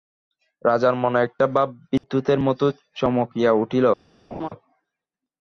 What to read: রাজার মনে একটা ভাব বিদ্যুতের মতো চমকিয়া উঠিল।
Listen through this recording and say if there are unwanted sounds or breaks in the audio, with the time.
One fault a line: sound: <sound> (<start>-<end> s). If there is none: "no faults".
sound: dropout (2.0-2.0 s)
sound: laugh (4.3-4.5 s)